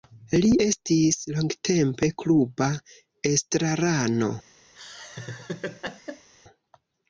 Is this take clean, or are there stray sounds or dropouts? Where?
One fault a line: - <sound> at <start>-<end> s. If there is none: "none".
- laugh at 4.7-6.3 s